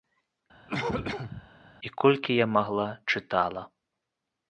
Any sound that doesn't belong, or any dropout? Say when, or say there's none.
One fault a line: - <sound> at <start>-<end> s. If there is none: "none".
- cough at 0.7-1.5 s